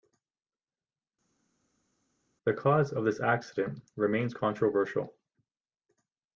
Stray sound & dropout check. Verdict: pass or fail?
pass